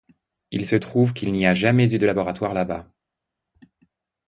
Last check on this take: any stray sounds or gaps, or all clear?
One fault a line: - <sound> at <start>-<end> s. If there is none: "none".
none